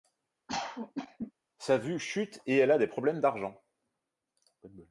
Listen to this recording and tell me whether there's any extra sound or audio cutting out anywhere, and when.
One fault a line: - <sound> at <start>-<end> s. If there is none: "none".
- cough at 0.5-1.3 s